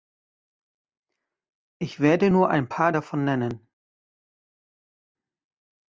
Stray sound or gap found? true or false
false